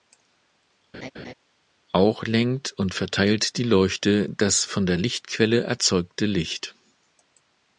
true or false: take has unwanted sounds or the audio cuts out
true